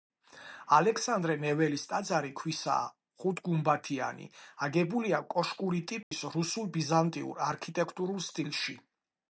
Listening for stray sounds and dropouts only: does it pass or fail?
fail